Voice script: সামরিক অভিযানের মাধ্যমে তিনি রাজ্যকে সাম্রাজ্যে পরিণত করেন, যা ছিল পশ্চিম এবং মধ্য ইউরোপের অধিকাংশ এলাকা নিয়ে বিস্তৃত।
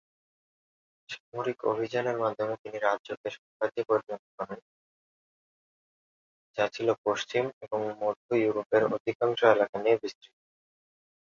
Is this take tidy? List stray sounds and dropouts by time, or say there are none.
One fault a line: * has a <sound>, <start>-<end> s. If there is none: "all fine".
all fine